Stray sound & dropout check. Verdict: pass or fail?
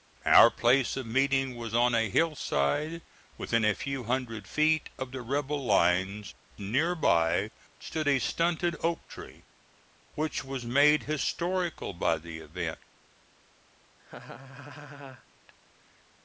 fail